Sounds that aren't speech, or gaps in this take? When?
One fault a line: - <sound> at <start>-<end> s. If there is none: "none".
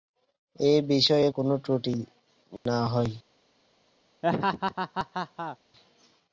- dropout at 2.6-2.7 s
- laugh at 4.2-5.6 s